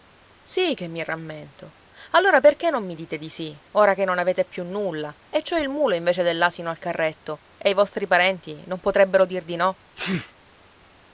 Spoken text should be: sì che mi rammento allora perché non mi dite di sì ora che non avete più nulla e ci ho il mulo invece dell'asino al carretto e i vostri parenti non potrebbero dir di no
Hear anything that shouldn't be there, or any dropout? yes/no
yes